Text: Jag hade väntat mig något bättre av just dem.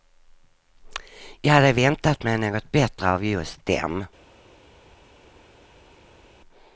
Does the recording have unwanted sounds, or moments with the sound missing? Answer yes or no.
no